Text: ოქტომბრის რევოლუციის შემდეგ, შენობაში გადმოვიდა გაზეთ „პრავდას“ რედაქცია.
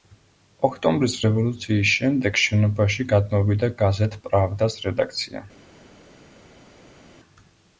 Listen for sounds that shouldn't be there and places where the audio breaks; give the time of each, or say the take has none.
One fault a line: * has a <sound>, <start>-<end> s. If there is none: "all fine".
all fine